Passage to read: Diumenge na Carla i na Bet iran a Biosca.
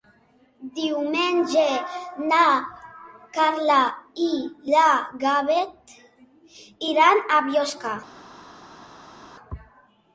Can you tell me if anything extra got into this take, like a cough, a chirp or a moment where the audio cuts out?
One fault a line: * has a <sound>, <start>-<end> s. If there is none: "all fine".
all fine